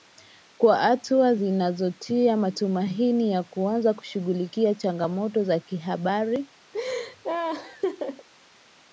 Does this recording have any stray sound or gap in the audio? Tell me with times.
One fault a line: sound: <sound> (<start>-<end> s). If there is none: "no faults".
sound: laugh (6.7-8.3 s)